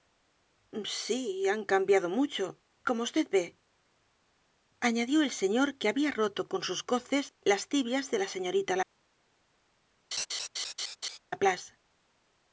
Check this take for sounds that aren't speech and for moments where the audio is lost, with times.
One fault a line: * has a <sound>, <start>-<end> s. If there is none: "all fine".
* has a laugh, 10.1-11.2 s